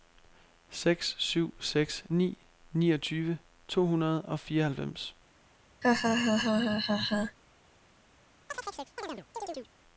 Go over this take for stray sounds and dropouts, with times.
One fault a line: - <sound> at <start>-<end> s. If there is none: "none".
- laugh at 5.8-7.4 s
- chirp at 8.5-9.7 s